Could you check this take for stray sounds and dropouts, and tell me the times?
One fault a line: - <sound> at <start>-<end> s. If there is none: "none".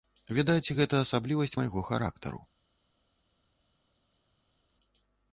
none